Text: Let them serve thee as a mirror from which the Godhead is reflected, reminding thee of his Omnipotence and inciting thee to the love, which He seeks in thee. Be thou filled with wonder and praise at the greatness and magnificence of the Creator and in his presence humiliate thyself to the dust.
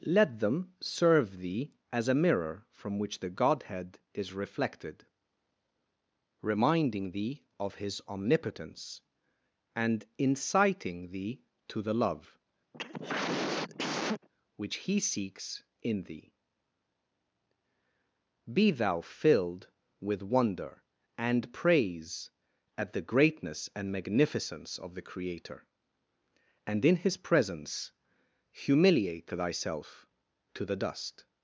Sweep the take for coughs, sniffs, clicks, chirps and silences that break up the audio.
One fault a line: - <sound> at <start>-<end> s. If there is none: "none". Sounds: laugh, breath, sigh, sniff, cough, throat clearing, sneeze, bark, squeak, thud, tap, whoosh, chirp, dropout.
- cough at 12.7-14.3 s